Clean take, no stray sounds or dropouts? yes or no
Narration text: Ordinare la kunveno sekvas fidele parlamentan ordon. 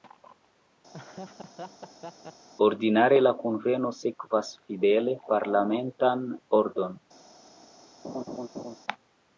no